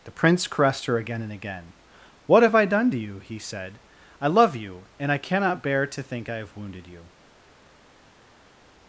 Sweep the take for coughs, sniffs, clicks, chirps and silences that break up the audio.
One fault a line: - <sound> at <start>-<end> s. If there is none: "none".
none